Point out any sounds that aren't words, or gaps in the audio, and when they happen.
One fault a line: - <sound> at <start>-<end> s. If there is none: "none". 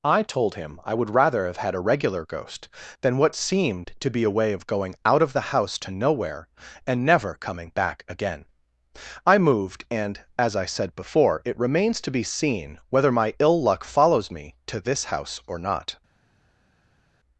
none